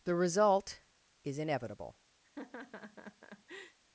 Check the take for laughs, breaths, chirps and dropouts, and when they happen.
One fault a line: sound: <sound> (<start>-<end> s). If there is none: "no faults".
sound: laugh (2.2-3.8 s)